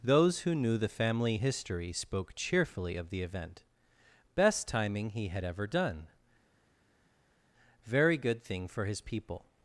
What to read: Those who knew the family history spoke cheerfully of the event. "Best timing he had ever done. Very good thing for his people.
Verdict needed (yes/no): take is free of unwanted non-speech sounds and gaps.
yes